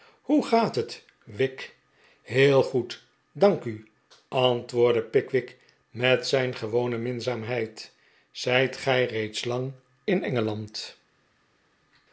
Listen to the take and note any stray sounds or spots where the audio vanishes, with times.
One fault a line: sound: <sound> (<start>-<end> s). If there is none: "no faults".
no faults